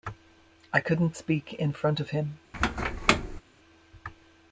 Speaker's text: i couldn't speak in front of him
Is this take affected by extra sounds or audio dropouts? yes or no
yes